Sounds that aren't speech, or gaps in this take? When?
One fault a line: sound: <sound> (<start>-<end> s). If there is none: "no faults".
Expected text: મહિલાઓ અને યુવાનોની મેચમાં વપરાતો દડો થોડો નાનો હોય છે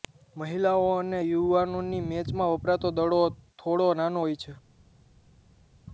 no faults